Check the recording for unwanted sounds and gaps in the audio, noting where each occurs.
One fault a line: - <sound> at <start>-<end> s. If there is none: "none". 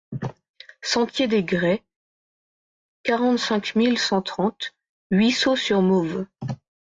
none